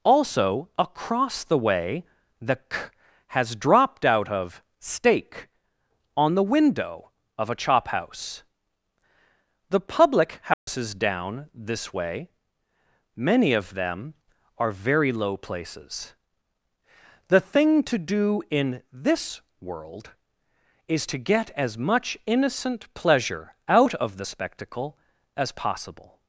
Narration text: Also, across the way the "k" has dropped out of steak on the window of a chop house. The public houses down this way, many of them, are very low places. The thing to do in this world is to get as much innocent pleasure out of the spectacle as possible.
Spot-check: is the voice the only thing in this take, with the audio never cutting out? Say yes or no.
no